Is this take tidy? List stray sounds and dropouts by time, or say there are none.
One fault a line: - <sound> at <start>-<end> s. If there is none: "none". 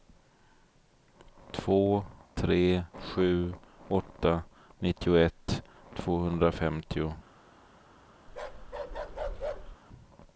- bark at 8.3-9.8 s